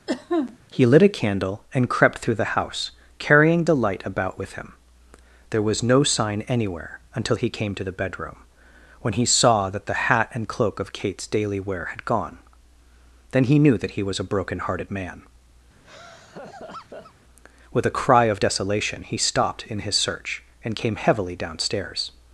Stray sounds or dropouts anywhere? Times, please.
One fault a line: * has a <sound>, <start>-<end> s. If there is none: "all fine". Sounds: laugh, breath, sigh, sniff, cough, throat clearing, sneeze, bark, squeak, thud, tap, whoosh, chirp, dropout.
* has a cough, 0.1-0.6 s
* has a laugh, 15.8-17.1 s